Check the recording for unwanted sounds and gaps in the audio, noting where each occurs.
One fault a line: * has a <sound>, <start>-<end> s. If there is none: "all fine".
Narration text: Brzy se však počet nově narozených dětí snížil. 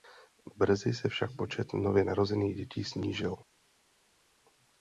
all fine